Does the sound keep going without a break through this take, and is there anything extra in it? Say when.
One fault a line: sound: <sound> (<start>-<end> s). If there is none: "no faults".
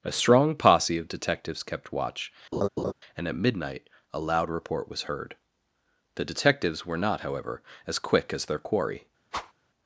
sound: laugh (2.5-2.9 s)
sound: whoosh (9.3-9.5 s)